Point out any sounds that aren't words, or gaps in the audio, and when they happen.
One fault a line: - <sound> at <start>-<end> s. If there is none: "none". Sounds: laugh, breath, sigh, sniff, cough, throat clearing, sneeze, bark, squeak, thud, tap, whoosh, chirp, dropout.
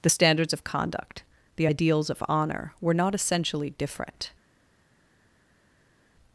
none